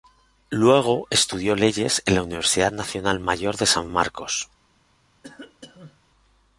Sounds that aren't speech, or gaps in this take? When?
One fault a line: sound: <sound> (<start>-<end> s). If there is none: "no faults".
sound: cough (5.2-6.1 s)